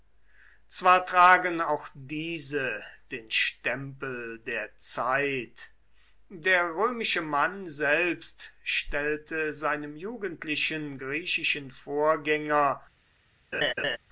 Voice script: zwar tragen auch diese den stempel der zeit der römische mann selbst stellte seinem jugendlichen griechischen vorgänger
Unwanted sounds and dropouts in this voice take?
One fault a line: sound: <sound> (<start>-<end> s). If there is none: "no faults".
sound: laugh (13.5-14.0 s)